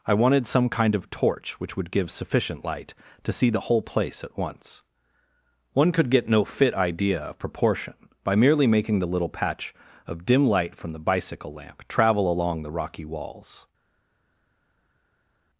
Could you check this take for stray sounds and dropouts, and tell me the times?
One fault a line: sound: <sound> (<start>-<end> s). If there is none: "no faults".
no faults